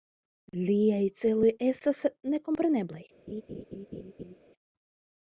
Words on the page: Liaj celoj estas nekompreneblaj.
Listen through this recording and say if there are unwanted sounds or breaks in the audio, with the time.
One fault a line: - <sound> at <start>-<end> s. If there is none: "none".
- laugh at 3.3-4.4 s